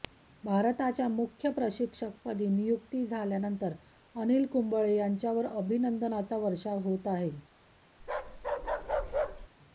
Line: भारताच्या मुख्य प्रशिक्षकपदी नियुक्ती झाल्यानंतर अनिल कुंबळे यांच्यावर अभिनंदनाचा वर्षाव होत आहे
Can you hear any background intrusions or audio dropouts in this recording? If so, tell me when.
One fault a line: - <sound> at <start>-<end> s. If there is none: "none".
- bark at 8.0-9.5 s